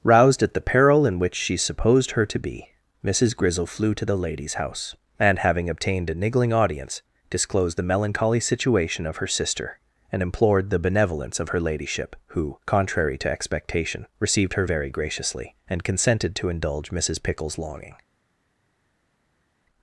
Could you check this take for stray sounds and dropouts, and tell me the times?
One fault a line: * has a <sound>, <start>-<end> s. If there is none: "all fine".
all fine